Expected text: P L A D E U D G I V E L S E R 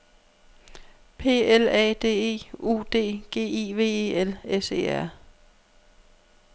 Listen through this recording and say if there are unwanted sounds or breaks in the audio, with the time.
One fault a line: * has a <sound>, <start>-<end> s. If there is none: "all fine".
all fine